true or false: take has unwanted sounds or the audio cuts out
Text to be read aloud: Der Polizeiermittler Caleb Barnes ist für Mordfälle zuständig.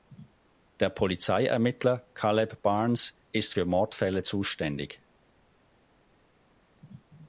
false